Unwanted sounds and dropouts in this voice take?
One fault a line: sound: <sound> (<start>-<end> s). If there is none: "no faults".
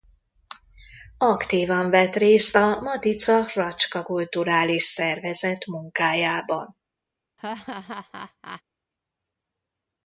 sound: laugh (7.4-8.6 s)